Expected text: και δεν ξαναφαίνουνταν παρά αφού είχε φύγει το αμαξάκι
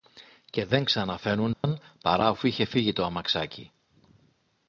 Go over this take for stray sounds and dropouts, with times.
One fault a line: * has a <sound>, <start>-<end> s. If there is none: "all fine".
* has a dropout, 1.5-1.6 s